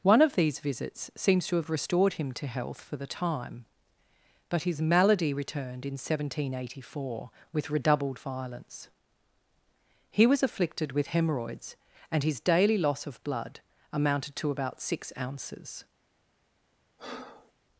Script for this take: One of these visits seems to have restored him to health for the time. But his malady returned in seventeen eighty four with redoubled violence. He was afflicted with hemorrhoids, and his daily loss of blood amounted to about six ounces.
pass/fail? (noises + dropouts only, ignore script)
fail